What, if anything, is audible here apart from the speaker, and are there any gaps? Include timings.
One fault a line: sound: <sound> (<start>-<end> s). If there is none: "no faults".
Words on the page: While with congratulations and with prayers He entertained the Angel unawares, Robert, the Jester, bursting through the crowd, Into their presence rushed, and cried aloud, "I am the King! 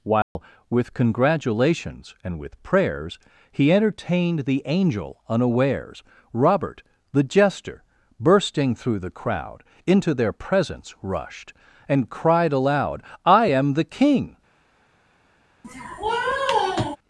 sound: dropout (0.2-0.4 s)
sound: sniff (15.6-17.0 s)